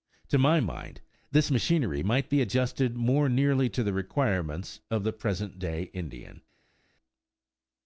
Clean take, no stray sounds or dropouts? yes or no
yes